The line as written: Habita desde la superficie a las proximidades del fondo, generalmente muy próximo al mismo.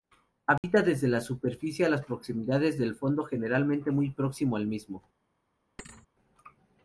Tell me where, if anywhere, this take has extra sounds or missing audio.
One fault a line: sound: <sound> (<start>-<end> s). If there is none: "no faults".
sound: dropout (0.6-0.6 s)
sound: thud (5.8-6.1 s)